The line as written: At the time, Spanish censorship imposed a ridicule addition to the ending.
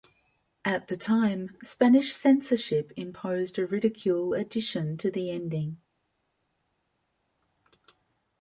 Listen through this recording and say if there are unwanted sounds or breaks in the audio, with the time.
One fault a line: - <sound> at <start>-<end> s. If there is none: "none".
none